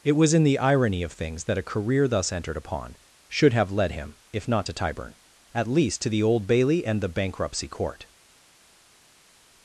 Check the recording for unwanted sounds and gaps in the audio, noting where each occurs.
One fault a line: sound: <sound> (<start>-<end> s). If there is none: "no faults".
no faults